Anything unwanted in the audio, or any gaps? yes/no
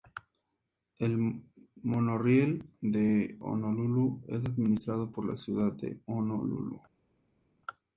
no